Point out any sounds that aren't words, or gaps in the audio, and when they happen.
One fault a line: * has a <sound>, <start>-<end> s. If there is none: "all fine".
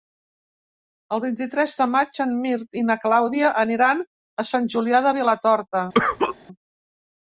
* has a cough, 5.9-6.4 s